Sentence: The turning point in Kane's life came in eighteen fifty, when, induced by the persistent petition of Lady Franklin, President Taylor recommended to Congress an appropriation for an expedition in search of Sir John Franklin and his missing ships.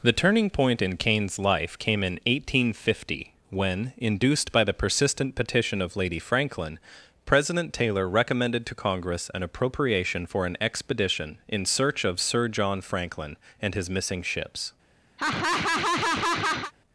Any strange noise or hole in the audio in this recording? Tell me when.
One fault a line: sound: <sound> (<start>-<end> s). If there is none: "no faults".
sound: laugh (15.2-16.7 s)